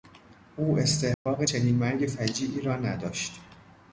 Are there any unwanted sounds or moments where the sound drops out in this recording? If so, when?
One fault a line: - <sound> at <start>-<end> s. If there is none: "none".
- dropout at 1.1-1.3 s